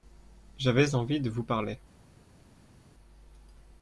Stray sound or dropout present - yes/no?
no